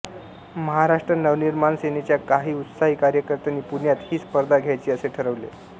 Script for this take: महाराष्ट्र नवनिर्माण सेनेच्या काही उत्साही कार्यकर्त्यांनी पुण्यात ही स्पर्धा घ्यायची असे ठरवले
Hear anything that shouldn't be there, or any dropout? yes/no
no